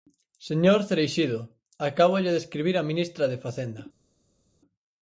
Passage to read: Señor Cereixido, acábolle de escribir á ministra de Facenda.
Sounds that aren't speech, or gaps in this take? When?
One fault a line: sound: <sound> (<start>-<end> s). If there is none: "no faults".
no faults